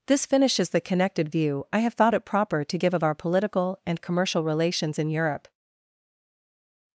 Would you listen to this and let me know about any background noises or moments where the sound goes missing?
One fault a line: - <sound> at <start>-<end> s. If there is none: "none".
none